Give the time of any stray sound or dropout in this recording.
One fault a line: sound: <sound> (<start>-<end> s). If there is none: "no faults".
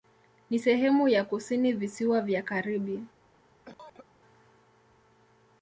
sound: cough (3.7-4.1 s)